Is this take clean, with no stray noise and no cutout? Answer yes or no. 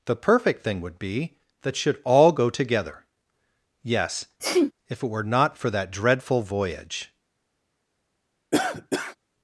no